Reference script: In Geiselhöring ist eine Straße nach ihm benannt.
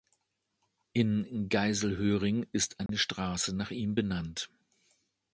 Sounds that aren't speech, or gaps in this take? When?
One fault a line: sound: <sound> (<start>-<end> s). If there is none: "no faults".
sound: dropout (2.9-2.9 s)